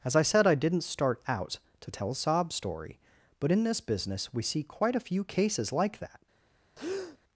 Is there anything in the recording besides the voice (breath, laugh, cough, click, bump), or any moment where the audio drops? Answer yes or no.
yes